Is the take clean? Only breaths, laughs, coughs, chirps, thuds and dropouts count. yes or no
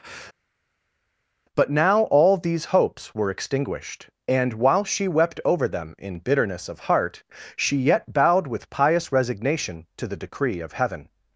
yes